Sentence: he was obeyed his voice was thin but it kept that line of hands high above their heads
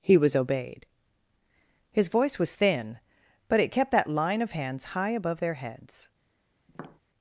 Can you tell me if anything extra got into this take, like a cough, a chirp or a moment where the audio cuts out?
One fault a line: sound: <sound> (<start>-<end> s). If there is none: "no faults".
sound: tap (6.7-7.0 s)